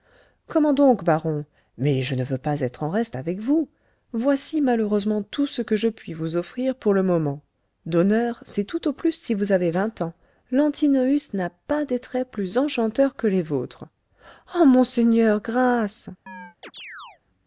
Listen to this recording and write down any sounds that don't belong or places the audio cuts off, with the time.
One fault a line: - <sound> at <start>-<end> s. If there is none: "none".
- chirp at 16.3-17.2 s